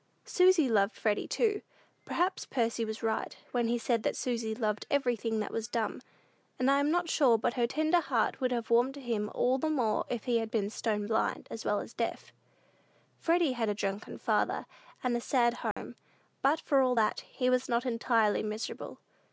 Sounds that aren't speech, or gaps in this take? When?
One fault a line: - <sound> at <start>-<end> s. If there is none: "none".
- dropout at 15.7-15.8 s